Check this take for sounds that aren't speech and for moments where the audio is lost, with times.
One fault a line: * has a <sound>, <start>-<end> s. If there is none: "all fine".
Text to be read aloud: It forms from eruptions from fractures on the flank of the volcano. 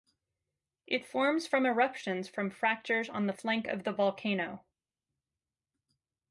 all fine